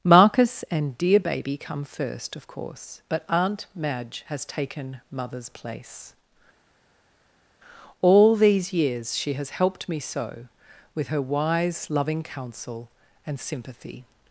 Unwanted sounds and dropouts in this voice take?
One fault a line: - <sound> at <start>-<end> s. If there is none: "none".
none